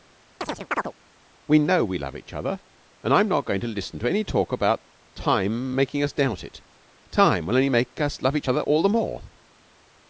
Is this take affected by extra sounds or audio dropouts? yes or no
yes